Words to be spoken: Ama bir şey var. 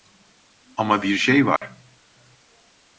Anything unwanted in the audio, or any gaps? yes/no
yes